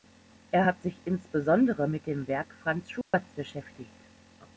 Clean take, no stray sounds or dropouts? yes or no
no